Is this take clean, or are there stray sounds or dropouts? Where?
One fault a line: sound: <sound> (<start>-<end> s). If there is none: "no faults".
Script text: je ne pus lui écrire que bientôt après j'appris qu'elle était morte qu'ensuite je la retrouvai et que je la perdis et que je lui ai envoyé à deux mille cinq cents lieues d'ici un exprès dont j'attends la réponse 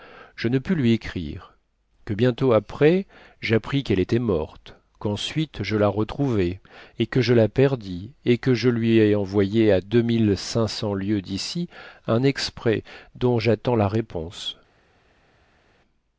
no faults